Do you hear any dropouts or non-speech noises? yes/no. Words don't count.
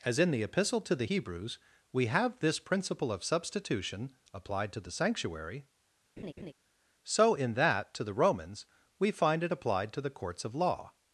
yes